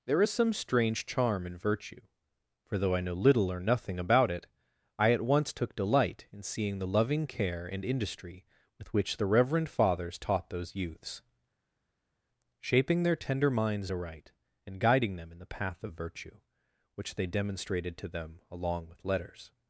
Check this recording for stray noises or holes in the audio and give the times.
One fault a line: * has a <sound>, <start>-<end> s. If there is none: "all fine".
all fine